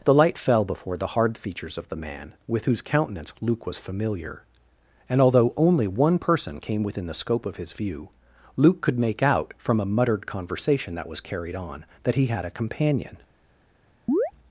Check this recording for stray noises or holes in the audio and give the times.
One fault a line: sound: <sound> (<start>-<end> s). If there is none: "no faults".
sound: chirp (14.1-14.3 s)